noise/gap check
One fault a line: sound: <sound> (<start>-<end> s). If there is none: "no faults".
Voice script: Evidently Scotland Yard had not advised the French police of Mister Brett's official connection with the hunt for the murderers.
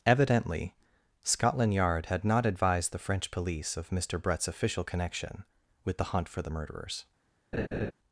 sound: laugh (7.5-7.9 s)